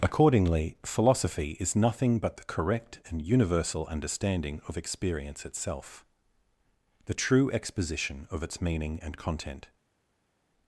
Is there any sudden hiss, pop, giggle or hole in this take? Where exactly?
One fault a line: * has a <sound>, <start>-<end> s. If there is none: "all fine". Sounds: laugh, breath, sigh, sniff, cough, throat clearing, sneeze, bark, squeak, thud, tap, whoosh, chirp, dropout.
all fine